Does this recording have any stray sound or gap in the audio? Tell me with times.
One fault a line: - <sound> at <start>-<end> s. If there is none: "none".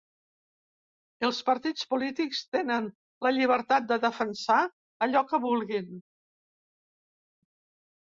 none